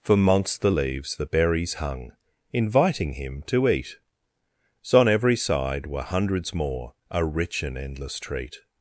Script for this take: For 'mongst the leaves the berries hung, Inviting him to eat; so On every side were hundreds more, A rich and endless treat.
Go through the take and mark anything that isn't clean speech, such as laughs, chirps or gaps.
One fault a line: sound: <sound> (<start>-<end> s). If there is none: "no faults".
no faults